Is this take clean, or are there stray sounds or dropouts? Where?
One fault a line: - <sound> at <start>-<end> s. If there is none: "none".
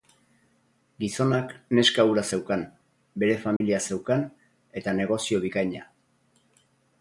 - dropout at 3.6-3.6 s